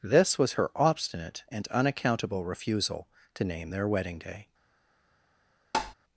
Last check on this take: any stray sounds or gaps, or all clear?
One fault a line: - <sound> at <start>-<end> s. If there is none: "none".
- tap at 5.7-5.9 s